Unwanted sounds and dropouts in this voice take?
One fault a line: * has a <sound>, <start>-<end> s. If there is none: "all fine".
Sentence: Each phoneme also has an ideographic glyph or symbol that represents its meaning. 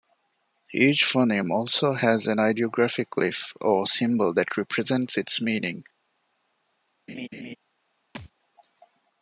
* has a laugh, 7.1-7.6 s
* has a thud, 8.1-8.3 s